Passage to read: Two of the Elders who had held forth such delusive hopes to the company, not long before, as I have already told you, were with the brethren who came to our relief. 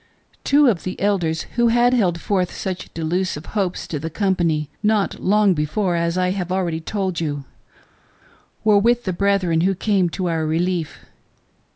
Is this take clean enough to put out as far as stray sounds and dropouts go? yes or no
yes